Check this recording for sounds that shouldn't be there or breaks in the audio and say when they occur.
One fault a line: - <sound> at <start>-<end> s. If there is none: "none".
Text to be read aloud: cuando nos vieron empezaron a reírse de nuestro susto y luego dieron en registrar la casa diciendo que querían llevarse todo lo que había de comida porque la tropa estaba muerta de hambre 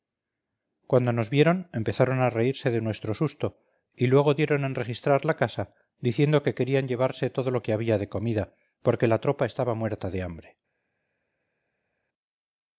none